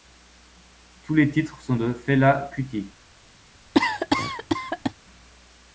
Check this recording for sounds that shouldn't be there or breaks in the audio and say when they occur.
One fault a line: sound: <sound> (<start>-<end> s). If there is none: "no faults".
sound: cough (3.7-4.9 s)